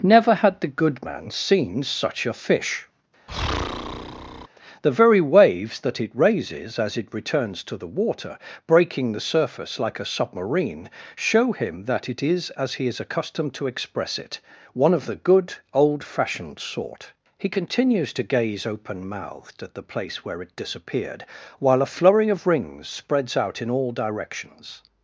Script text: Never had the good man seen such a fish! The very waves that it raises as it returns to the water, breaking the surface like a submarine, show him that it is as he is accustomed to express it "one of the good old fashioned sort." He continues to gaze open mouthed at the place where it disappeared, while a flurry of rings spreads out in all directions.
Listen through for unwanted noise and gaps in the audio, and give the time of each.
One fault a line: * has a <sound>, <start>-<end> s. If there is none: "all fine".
* has a breath, 3.3-4.5 s